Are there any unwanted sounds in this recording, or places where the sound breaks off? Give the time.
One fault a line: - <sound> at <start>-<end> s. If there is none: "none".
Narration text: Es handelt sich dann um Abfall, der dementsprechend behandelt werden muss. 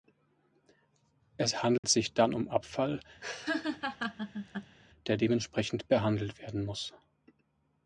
- dropout at 1.8-1.8 s
- laugh at 3.2-4.8 s